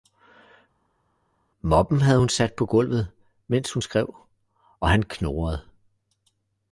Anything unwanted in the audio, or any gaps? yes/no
no